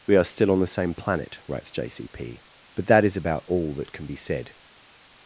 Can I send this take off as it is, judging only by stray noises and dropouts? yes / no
yes